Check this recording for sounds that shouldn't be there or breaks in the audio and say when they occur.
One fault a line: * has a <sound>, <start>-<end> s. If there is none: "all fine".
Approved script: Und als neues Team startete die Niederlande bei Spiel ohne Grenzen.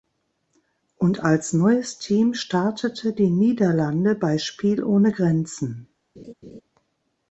* has a laugh, 6.2-6.6 s